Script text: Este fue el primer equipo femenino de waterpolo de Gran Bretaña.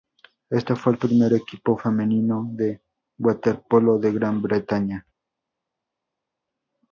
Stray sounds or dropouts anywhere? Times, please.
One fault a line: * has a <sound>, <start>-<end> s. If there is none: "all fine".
all fine